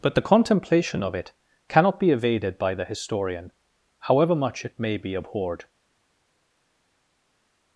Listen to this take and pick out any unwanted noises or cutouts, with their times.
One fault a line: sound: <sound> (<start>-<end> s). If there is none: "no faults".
no faults